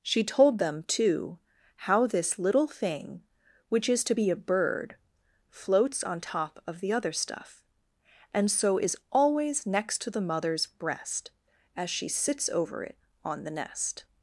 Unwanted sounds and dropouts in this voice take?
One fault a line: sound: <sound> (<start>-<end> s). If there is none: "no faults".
no faults